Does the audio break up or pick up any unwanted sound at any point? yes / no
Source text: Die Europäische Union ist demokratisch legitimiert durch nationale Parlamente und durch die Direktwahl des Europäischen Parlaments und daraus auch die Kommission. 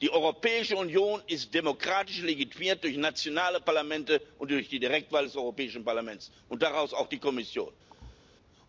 yes